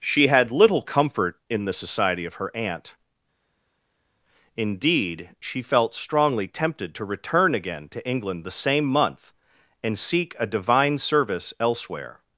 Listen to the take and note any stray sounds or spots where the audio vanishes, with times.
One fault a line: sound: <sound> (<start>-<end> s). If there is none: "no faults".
no faults